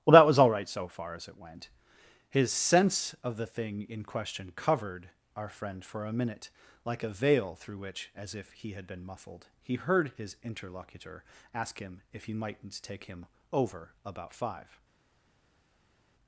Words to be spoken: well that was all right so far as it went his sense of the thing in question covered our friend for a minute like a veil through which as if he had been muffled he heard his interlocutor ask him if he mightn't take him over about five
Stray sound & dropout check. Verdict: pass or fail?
pass